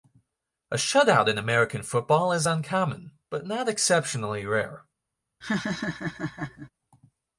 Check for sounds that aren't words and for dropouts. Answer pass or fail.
fail